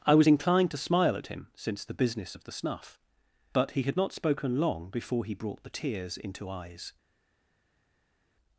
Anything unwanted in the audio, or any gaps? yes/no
no